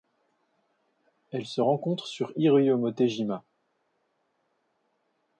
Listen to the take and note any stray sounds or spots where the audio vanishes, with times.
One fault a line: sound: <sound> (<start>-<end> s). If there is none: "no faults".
no faults